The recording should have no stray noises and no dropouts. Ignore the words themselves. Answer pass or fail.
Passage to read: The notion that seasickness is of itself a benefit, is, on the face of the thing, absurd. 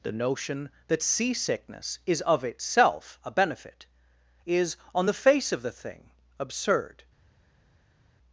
pass